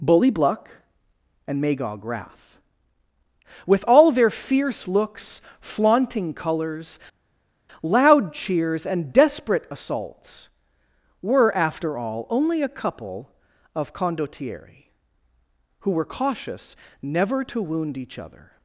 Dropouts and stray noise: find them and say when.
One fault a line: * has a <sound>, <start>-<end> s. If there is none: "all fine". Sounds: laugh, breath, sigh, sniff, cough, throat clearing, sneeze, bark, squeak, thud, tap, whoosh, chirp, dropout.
all fine